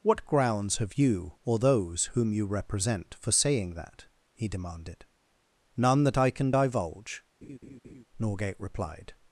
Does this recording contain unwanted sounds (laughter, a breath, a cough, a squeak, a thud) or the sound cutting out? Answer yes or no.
yes